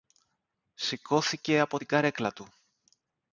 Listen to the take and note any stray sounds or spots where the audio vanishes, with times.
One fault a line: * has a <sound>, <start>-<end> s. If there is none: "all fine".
all fine